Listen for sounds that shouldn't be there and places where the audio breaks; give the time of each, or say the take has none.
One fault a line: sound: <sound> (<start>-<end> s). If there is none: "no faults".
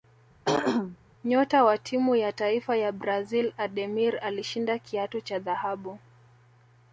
sound: throat clearing (0.5-1.0 s)